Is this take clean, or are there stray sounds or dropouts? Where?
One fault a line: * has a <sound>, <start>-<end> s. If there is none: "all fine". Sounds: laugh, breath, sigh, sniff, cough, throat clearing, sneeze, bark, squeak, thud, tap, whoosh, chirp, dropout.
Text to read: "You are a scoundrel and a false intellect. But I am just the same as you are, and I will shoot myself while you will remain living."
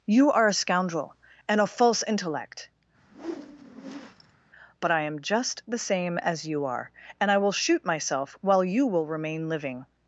* has a whoosh, 3.0-4.4 s